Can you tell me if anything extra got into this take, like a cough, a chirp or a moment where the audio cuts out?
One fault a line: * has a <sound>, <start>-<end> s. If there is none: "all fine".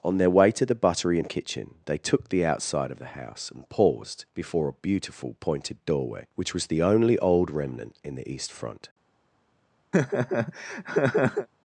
* has a laugh, 9.9-11.5 s